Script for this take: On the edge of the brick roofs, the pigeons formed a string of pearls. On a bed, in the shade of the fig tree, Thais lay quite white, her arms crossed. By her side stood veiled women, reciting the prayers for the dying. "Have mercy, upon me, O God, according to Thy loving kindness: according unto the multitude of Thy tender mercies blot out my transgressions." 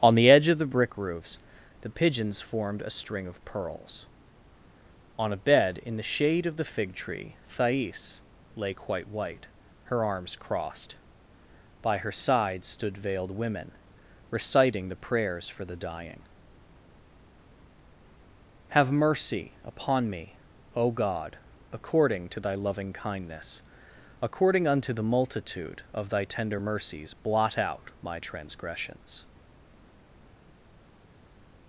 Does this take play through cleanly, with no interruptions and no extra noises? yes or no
yes